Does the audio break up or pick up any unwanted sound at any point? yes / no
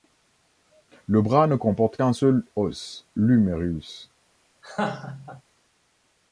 yes